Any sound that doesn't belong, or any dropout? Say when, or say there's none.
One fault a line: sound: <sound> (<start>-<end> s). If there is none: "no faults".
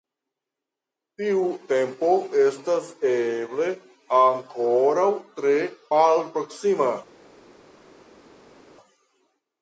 no faults